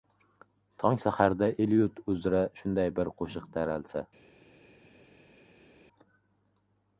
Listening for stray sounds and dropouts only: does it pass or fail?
pass